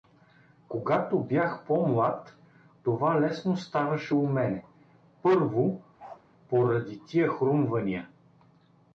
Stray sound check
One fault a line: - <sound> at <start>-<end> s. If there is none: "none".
- bark at 6.0-6.2 s